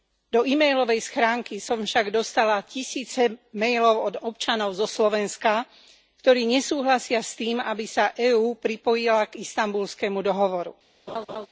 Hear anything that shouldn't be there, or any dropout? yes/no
yes